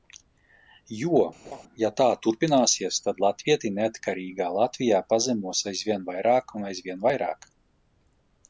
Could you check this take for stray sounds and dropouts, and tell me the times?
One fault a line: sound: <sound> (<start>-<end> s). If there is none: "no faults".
sound: laugh (1.4-1.6 s)